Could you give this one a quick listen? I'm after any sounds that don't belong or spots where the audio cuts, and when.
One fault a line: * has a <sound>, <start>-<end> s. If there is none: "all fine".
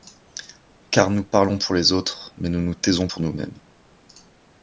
all fine